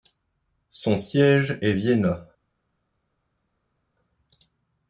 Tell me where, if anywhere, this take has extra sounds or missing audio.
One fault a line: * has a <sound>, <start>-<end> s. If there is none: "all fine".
all fine